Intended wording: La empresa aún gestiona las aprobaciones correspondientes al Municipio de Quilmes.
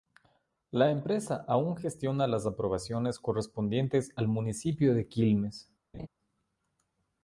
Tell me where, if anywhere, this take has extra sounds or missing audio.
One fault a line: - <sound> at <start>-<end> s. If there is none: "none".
- laugh at 5.9-6.1 s